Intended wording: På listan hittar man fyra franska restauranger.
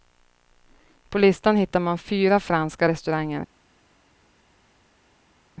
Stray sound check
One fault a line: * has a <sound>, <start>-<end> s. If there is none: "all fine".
all fine